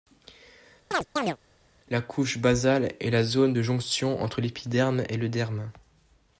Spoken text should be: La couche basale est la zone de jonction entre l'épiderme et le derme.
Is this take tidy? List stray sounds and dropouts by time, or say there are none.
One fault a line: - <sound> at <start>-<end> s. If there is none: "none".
- chirp at 0.9-1.4 s